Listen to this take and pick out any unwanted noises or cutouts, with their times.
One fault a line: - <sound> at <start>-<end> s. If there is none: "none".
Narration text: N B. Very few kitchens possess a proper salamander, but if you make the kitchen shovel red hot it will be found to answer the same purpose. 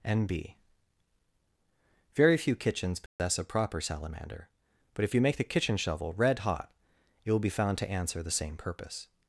- dropout at 3.1-3.2 s